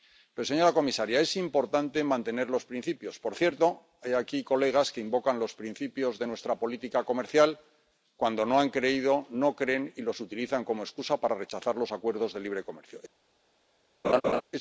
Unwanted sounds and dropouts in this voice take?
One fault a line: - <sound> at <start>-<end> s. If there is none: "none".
- laugh at 14.0-14.4 s